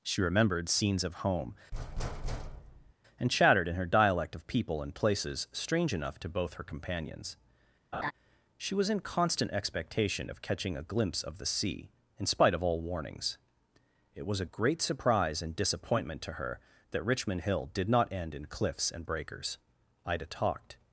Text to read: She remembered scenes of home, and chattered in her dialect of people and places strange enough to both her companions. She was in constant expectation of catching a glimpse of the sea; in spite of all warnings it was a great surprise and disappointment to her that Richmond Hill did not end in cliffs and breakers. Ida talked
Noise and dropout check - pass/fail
fail